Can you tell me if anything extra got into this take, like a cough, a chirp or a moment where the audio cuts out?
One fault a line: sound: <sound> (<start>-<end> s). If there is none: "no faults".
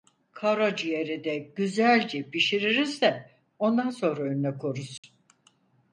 sound: dropout (5.0-5.0 s)